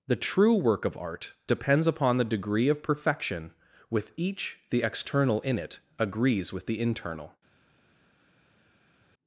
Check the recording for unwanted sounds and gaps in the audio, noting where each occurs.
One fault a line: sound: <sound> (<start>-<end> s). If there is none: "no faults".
no faults